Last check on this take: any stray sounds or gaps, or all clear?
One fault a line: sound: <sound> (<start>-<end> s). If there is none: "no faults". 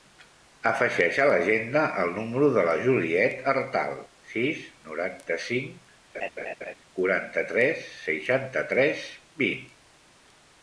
sound: laugh (6.1-6.7 s)